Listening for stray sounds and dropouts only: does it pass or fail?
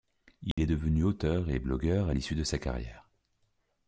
fail